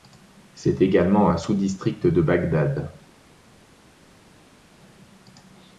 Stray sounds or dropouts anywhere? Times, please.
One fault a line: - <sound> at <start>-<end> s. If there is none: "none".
none